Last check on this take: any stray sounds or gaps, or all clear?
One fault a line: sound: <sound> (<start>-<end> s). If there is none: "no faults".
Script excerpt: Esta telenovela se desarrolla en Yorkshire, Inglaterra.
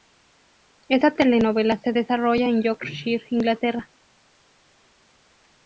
no faults